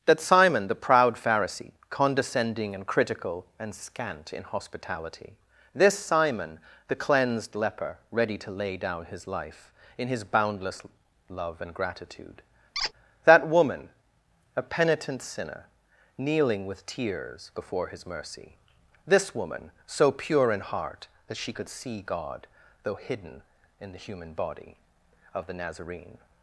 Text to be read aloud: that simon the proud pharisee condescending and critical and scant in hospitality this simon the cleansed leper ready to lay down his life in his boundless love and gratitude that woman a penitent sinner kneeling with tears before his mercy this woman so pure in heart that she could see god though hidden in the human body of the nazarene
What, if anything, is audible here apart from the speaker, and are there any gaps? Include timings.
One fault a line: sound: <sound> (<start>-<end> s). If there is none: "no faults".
sound: squeak (12.7-12.9 s)